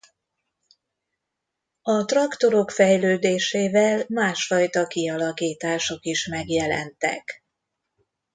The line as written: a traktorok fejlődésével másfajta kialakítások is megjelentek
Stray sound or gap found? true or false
false